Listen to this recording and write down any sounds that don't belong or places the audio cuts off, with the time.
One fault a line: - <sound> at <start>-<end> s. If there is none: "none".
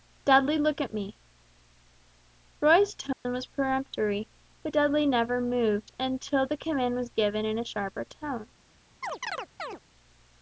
- dropout at 3.1-3.3 s
- chirp at 9.0-9.8 s